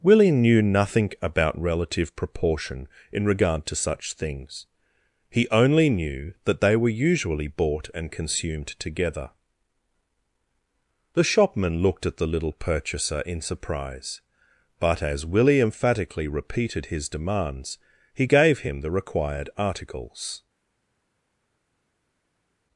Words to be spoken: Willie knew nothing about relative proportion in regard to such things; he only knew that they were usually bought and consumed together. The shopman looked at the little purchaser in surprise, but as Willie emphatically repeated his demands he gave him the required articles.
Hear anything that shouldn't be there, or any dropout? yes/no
no